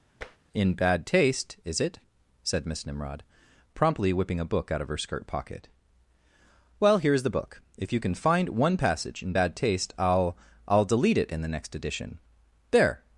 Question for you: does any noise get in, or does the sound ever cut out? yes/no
yes